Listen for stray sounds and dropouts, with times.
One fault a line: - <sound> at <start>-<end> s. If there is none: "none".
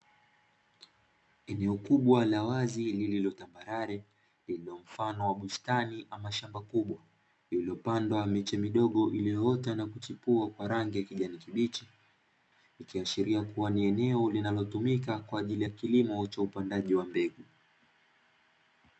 none